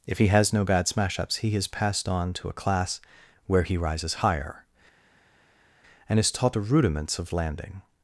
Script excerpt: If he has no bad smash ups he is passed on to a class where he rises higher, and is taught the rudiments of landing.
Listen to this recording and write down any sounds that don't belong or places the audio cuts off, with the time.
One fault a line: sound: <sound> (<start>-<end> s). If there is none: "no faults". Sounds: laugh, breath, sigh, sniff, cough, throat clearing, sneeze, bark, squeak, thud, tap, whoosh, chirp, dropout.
no faults